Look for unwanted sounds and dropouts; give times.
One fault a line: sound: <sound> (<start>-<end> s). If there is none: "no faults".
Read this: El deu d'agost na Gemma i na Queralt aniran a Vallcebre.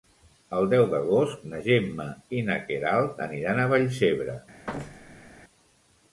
sound: thud (4.7-5.3 s)